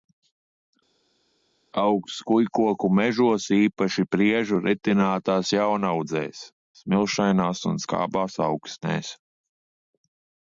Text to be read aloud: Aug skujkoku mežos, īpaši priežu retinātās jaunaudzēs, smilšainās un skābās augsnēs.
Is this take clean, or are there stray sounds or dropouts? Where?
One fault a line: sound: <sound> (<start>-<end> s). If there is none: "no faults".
no faults